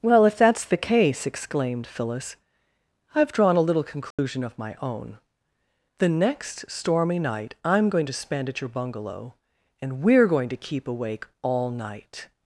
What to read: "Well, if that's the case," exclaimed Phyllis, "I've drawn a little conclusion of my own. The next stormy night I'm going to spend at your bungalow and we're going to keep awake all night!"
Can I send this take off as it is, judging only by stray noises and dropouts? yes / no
no